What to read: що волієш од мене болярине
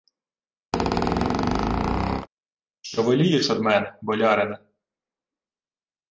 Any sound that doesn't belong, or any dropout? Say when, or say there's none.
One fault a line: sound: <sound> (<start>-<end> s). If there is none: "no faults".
sound: squeak (0.7-2.3 s)